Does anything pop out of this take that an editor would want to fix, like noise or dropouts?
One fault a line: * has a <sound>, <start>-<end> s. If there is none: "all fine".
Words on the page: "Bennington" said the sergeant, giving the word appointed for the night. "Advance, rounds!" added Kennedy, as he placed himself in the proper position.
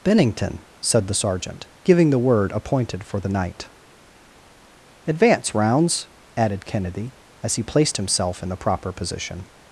all fine